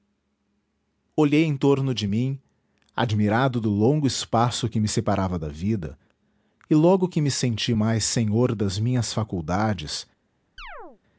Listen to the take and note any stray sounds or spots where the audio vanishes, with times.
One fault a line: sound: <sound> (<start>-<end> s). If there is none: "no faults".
sound: chirp (10.6-11.0 s)